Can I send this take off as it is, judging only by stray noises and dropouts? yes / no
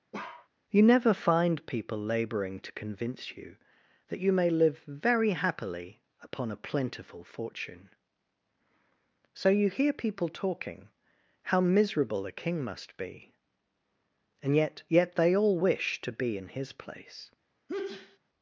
no